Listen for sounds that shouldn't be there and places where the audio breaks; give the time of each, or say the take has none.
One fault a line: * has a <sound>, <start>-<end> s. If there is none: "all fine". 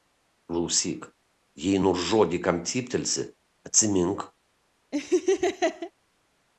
* has a laugh, 4.9-5.9 s